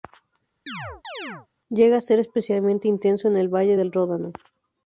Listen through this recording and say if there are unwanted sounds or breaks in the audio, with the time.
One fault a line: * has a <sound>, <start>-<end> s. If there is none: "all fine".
* has a chirp, 0.7-1.5 s